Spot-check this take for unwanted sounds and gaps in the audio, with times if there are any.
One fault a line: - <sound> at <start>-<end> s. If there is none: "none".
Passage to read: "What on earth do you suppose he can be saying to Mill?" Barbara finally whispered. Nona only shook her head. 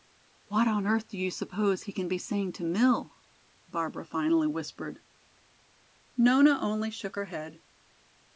none